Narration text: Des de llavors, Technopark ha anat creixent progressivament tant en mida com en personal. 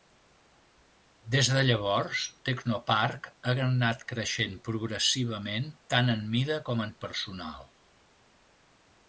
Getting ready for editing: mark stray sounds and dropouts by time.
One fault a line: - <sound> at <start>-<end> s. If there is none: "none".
none